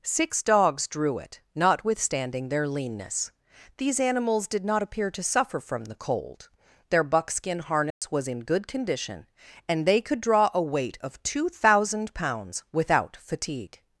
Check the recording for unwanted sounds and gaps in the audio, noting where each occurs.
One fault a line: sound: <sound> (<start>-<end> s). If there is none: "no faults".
sound: dropout (7.9-8.0 s)